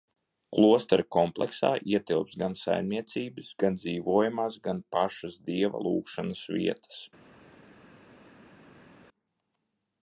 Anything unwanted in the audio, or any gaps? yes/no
no